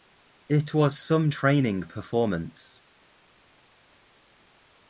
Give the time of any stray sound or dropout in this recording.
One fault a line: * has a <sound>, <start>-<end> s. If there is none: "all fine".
all fine